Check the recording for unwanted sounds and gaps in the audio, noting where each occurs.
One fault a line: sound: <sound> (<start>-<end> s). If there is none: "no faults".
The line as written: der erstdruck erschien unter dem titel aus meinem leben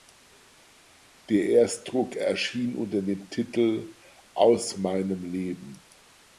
no faults